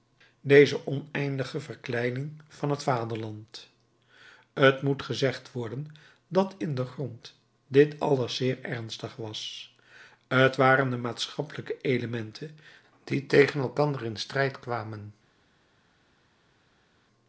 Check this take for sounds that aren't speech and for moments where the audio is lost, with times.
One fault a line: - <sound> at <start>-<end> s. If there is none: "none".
none